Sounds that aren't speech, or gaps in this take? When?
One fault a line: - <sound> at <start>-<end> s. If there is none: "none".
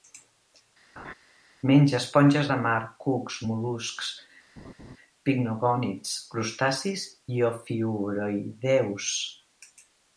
- laugh at 1.0-1.1 s
- laugh at 4.6-5.0 s